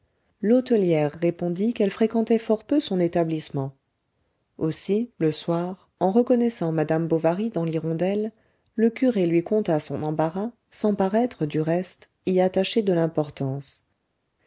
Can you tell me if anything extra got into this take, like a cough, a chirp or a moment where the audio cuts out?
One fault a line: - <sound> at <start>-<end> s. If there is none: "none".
none